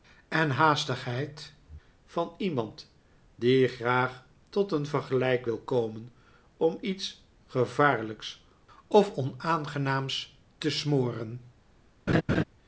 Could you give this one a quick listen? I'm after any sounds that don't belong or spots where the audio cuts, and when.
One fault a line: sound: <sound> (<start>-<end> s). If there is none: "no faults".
sound: laugh (12.1-12.4 s)